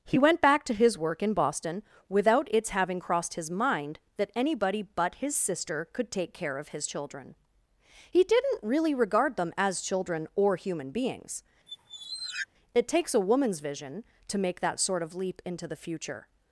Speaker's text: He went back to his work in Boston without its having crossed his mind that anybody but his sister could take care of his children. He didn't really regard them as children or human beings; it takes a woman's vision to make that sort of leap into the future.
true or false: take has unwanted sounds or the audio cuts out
true